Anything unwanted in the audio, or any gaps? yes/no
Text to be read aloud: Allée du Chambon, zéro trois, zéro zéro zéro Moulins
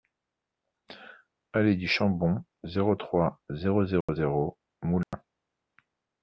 yes